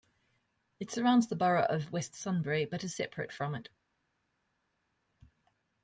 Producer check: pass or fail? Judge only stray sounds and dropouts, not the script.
pass